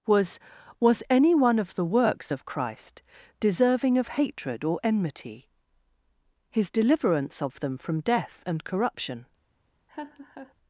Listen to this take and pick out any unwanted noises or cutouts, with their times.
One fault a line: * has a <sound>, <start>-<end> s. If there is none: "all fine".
* has a laugh, 9.9-10.5 s